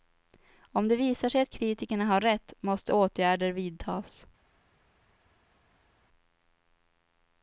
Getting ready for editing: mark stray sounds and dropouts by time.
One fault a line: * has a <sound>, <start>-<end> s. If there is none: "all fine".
all fine